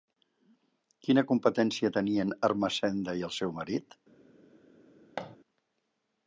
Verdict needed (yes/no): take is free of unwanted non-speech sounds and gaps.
no